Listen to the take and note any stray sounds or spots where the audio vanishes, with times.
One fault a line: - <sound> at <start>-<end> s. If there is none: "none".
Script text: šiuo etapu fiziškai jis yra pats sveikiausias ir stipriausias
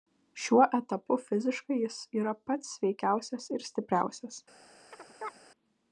- chirp at 4.9-5.4 s